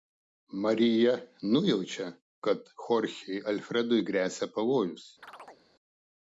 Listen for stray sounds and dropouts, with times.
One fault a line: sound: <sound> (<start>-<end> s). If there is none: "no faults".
sound: chirp (5.2-5.6 s)